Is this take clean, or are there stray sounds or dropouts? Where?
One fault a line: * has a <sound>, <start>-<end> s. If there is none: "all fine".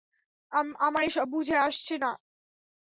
all fine